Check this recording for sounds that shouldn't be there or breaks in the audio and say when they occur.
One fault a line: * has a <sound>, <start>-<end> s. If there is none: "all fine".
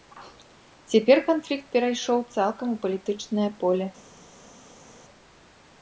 all fine